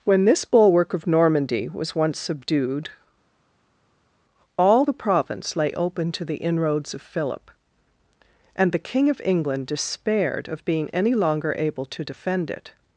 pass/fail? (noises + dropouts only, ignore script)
pass